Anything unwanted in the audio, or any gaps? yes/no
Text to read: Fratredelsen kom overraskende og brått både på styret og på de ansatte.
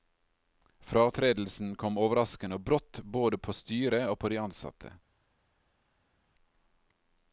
no